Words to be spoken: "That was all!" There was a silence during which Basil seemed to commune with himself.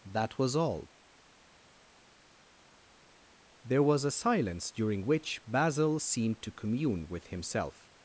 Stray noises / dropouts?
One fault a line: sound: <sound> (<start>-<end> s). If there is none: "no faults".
no faults